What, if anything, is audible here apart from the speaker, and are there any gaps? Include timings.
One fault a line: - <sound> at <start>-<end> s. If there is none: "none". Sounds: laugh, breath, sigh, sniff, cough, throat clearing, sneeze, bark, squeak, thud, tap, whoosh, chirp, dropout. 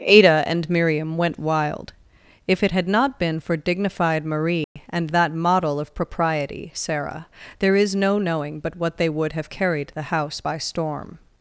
- dropout at 4.6-4.8 s